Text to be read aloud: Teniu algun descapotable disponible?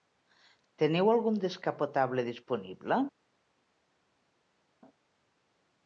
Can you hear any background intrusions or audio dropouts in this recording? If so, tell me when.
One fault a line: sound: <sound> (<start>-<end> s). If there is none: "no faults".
no faults